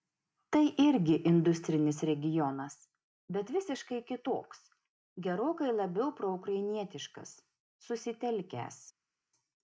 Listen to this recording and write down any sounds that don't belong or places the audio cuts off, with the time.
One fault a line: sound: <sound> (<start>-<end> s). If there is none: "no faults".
no faults